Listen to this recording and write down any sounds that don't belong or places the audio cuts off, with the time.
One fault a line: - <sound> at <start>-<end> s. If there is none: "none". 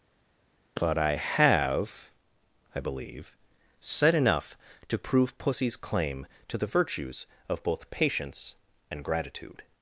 none